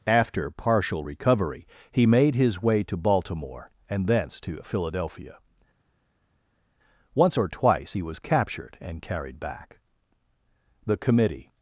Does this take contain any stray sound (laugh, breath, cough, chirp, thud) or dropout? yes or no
no